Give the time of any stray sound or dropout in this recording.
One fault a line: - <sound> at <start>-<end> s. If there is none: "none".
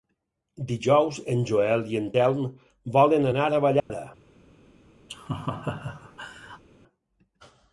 - dropout at 3.8-3.9 s
- laugh at 5.1-6.6 s